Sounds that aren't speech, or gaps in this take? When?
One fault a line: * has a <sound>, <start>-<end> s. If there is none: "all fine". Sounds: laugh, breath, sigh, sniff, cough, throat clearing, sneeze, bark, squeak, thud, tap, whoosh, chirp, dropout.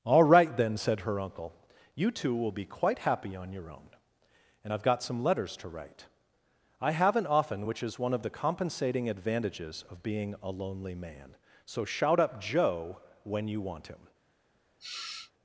* has a sniff, 14.8-15.3 s